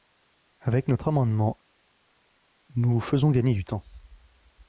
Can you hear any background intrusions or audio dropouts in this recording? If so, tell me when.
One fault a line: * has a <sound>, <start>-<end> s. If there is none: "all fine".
all fine